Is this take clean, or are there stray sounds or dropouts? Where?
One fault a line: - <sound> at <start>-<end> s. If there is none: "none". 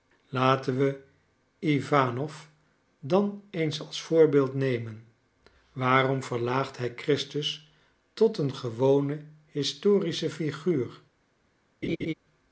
- laugh at 11.8-12.1 s